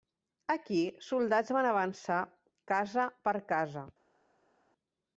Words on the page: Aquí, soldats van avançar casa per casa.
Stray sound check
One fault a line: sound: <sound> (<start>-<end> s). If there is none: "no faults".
no faults